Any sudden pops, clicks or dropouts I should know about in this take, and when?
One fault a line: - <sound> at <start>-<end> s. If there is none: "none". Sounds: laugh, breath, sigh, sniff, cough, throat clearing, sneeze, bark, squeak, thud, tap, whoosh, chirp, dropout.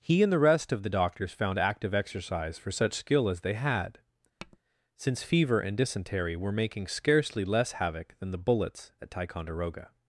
- tap at 4.4-4.6 s